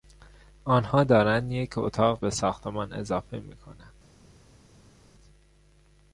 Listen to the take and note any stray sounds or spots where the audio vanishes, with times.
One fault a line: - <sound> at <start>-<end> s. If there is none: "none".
none